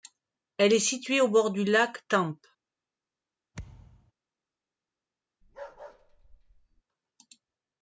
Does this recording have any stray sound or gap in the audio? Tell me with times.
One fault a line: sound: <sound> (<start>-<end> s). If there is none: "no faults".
sound: thud (3.5-4.1 s)
sound: bark (5.4-6.8 s)